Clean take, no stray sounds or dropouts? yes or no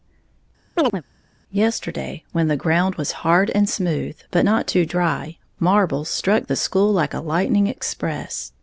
no